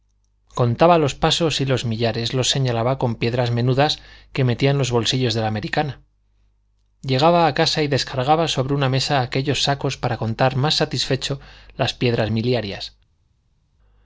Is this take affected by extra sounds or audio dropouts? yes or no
no